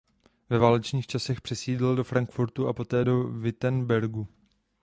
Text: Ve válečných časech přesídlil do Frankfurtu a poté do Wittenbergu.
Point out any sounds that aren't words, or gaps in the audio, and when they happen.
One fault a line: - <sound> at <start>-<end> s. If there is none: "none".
none